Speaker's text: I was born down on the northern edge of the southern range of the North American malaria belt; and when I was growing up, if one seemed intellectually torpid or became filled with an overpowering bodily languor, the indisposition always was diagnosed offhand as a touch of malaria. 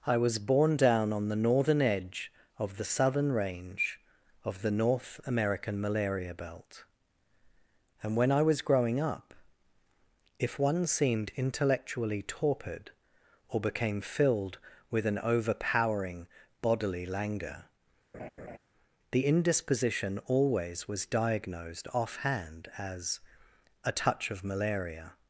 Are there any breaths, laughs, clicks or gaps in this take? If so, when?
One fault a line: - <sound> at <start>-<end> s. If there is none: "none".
- laugh at 18.1-18.6 s